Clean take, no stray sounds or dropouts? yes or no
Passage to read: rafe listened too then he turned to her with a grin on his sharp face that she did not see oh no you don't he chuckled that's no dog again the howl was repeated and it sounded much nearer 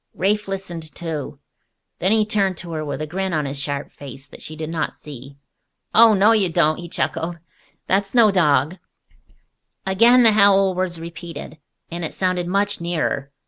yes